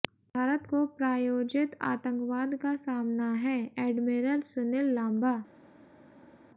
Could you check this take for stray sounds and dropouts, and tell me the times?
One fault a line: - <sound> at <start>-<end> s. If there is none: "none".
none